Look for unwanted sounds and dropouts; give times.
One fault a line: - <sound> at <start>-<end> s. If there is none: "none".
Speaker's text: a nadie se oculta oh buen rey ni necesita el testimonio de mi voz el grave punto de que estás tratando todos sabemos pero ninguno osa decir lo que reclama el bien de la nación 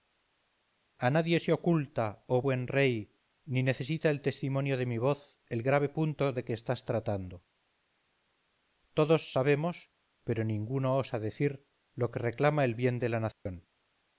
- dropout at 13.3-13.5 s